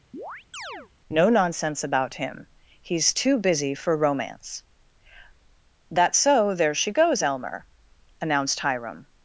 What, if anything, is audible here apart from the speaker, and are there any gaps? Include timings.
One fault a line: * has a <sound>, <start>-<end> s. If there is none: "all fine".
* has a chirp, 0.1-0.9 s